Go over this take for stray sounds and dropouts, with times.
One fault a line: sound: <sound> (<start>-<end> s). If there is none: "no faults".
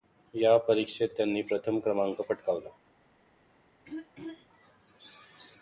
sound: throat clearing (3.8-4.5 s)